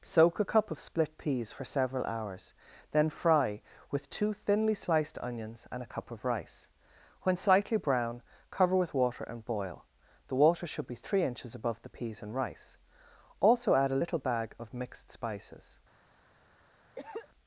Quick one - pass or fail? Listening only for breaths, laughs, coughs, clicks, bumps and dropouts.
fail